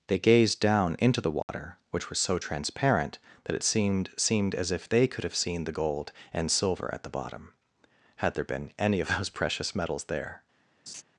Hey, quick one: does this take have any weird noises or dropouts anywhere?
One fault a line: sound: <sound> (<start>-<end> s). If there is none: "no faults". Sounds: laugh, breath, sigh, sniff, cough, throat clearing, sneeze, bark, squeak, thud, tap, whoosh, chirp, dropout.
sound: dropout (1.4-1.5 s)
sound: laugh (10.9-11.0 s)